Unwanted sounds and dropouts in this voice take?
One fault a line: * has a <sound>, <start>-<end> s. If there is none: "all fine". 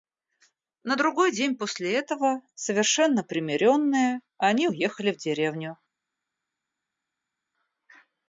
all fine